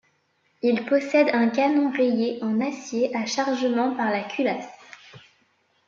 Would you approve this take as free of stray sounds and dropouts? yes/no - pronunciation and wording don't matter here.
yes